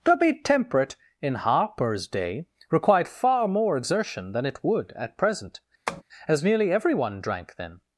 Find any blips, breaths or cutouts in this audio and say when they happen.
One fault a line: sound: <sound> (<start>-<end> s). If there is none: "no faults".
sound: tap (5.9-6.0 s)